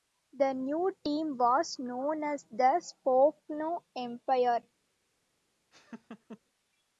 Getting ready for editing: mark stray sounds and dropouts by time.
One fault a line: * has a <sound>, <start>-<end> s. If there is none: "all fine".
* has a laugh, 5.7-6.4 s